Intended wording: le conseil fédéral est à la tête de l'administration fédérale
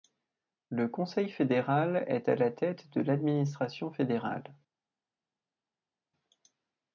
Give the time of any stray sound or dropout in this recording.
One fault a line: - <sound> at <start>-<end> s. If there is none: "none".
none